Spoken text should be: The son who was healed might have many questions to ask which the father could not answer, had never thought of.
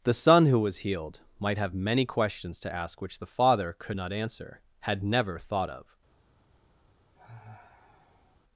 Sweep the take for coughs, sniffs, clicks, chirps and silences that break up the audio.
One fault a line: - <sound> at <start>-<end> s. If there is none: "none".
- sigh at 7.1-8.4 s